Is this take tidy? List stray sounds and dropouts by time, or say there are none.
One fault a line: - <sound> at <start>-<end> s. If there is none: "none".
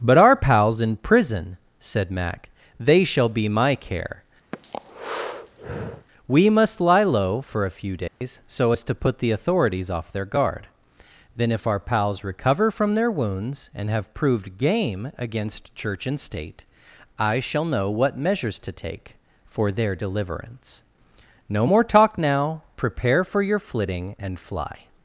- breath at 4.5-6.1 s
- dropout at 8.1-8.2 s